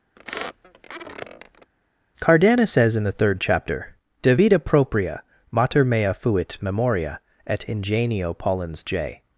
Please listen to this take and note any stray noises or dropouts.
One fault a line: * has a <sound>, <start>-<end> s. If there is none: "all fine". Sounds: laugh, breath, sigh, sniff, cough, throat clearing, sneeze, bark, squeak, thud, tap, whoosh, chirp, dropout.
* has a squeak, 0.2-1.7 s